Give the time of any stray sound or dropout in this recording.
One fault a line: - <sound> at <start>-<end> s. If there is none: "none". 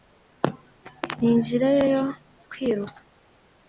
none